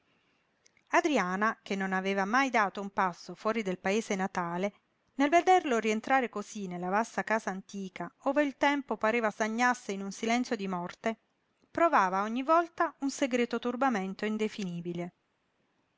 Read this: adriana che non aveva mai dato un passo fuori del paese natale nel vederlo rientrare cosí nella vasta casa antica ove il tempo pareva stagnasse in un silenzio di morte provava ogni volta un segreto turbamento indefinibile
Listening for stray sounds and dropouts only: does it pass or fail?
pass